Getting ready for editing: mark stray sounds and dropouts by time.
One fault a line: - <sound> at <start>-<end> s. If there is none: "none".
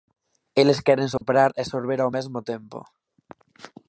- dropout at 1.2-1.2 s